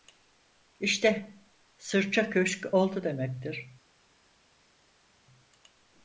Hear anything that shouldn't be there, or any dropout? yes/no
no